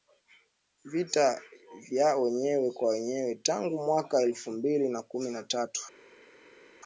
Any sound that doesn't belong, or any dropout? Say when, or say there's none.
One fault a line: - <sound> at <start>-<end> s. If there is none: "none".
none